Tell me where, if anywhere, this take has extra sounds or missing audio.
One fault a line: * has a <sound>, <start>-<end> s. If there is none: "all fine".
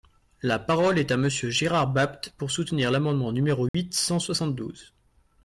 * has a dropout, 3.7-3.7 s